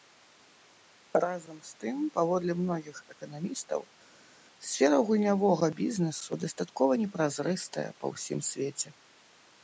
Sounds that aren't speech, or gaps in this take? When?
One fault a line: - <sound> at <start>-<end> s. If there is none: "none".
none